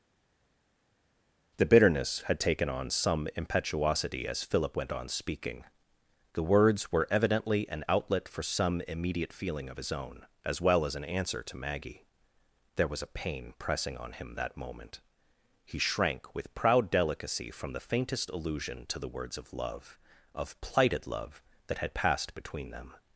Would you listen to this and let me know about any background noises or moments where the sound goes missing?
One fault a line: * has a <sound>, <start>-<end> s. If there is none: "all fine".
all fine